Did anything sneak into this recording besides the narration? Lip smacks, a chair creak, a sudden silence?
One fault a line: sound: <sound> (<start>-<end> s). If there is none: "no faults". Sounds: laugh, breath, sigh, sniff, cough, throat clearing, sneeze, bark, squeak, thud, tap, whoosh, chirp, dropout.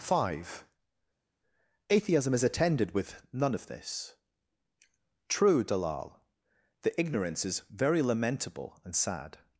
no faults